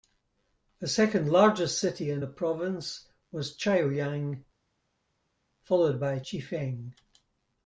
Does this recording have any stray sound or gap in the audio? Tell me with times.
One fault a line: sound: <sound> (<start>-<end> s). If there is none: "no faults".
no faults